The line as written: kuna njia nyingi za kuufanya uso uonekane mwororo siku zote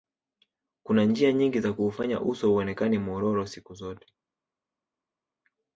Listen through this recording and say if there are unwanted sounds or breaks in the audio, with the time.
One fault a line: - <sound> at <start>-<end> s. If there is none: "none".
none